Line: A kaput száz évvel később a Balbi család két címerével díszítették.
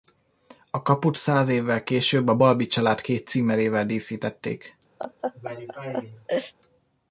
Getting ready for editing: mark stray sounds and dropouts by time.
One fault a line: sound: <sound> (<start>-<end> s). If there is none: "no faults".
sound: laugh (5.0-6.5 s)